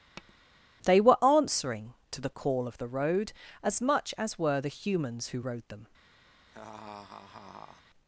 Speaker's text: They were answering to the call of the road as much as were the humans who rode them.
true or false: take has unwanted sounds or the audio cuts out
true